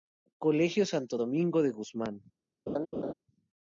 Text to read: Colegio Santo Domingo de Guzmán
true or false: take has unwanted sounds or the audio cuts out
true